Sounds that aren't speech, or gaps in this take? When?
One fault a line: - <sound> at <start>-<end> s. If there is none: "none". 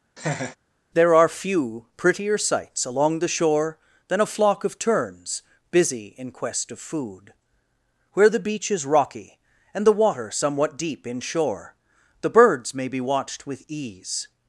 - laugh at 0.2-0.6 s